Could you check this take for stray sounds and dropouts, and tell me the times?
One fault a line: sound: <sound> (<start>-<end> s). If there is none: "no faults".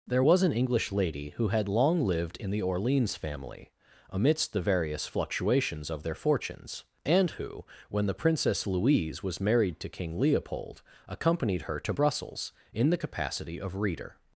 no faults